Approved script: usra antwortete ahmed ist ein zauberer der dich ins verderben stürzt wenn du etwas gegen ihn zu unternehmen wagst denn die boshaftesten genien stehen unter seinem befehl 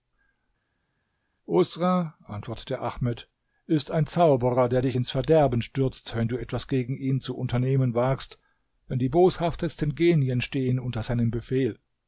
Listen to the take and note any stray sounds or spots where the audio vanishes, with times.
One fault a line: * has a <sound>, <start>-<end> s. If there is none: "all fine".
all fine